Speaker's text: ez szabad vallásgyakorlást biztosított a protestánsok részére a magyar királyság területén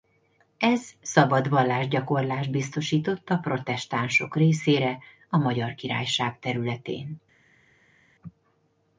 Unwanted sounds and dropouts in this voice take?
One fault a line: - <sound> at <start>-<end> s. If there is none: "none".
none